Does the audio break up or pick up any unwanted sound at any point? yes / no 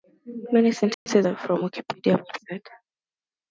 yes